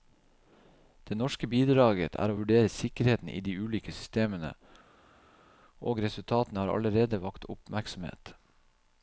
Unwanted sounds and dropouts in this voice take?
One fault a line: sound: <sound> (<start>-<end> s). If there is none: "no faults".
no faults